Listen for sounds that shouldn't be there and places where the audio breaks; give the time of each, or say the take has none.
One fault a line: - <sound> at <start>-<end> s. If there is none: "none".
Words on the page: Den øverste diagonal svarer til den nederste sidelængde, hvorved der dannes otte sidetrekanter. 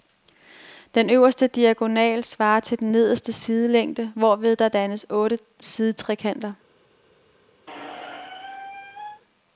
- squeak at 7.7-9.2 s